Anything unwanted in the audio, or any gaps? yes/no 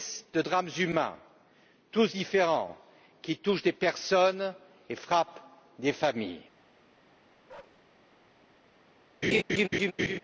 yes